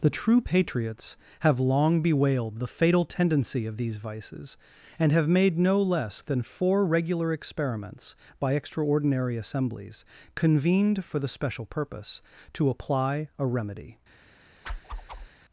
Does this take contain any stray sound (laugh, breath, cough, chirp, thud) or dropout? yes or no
yes